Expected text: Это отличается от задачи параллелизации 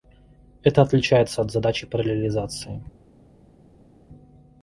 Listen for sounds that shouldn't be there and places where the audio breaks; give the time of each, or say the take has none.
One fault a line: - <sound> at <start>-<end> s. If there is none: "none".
none